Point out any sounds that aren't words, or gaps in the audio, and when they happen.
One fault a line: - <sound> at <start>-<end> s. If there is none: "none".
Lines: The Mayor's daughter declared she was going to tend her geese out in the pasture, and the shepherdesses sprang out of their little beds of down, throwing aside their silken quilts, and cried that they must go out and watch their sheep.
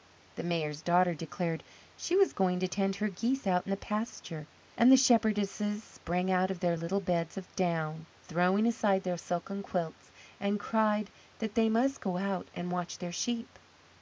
none